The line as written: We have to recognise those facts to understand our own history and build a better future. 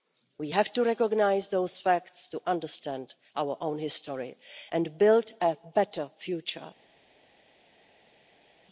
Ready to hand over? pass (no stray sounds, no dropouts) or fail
pass